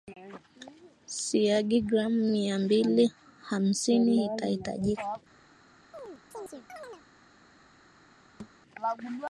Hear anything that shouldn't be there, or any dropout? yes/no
yes